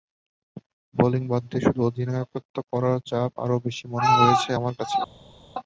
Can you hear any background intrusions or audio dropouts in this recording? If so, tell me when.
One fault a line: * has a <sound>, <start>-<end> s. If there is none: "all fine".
all fine